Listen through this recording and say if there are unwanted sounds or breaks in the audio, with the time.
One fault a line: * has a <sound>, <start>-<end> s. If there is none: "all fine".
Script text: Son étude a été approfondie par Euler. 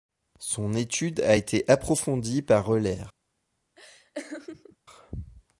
* has a laugh, 3.8-4.8 s